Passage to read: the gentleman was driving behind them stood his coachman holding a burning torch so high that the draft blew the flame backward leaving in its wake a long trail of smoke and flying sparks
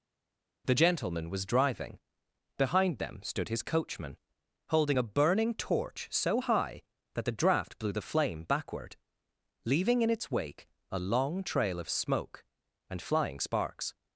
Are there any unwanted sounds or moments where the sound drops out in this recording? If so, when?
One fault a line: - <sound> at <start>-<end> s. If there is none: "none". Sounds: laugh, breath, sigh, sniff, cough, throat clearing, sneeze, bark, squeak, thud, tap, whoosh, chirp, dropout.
none